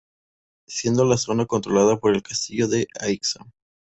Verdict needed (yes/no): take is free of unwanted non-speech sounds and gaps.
yes